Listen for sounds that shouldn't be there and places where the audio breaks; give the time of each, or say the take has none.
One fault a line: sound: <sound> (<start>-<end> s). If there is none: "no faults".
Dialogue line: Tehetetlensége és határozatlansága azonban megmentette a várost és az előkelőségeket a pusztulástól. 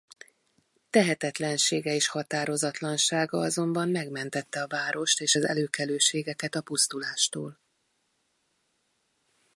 no faults